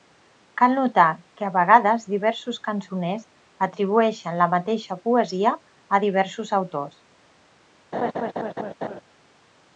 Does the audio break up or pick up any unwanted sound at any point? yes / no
yes